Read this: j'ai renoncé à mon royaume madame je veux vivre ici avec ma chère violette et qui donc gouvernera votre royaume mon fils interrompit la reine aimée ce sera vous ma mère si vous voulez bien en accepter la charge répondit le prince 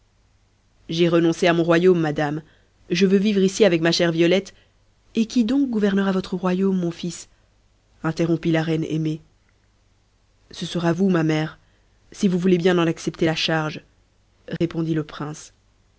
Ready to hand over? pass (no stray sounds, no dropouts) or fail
fail